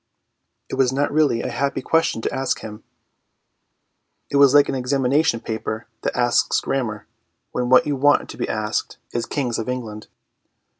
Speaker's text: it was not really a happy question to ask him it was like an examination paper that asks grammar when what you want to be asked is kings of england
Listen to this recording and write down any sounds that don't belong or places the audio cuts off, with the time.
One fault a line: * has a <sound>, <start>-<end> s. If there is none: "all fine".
all fine